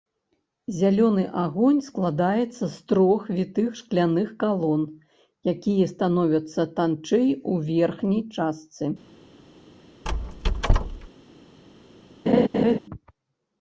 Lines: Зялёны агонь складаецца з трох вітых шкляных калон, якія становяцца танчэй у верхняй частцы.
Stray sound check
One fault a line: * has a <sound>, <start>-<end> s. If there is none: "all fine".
* has a squeak, 10.0-11.1 s
* has a laugh, 12.3-12.8 s